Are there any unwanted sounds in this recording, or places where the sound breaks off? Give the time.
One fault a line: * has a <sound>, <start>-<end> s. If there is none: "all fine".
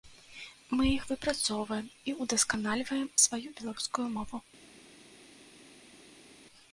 all fine